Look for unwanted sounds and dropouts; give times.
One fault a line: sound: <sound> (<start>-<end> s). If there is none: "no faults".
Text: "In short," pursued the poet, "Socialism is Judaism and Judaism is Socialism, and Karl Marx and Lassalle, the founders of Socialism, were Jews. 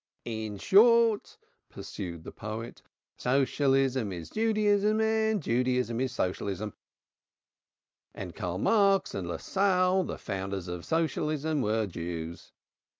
no faults